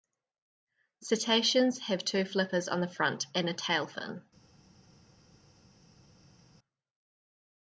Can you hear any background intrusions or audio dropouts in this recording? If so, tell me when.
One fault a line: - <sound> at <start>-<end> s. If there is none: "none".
none